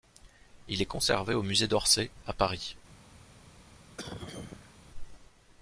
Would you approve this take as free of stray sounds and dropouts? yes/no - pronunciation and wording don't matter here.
no